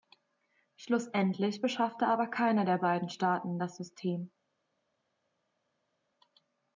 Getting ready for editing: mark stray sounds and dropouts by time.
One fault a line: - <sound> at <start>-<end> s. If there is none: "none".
none